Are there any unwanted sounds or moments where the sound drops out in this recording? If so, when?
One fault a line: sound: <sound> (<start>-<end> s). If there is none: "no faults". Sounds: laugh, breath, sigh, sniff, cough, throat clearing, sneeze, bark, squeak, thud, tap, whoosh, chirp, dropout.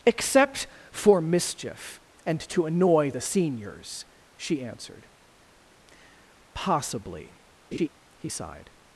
sound: laugh (7.7-7.9 s)